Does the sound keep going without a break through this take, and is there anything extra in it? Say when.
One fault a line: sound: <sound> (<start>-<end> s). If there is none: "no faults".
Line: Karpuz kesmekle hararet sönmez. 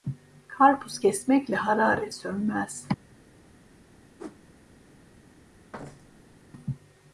sound: whoosh (4.2-4.4 s)
sound: thud (5.7-6.4 s)